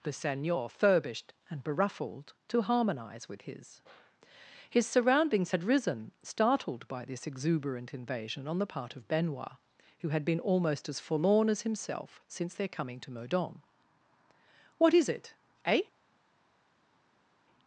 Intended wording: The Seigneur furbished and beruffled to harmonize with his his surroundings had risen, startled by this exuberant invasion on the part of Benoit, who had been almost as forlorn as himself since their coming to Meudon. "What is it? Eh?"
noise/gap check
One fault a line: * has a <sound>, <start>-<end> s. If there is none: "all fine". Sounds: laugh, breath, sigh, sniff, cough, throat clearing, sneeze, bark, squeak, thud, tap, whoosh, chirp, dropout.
all fine